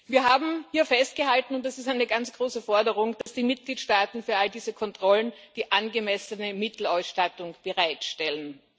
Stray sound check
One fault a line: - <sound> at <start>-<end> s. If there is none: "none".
- dropout at 3.2-3.3 s